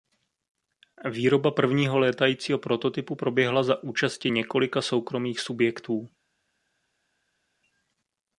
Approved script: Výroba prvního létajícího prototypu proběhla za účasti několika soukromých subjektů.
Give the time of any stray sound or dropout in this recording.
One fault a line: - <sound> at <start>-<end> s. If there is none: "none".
none